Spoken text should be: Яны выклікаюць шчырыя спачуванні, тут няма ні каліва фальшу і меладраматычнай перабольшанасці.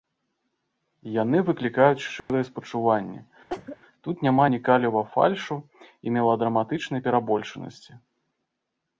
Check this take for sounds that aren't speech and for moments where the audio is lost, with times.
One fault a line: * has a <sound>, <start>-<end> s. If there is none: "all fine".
* has a dropout, 2.2-2.3 s
* has a cough, 3.5-3.8 s